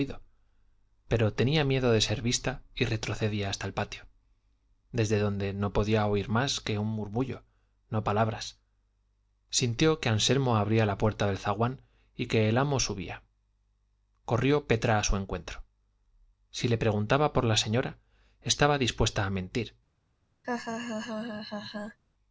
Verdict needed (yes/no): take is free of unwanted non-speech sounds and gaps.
no